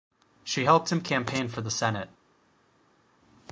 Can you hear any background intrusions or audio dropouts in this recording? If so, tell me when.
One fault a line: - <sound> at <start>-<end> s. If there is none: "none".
none